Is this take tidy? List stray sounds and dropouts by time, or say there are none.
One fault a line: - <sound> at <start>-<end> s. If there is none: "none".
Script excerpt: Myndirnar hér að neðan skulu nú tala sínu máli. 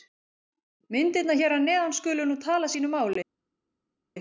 none